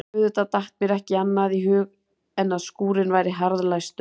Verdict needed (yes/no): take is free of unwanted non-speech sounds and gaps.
yes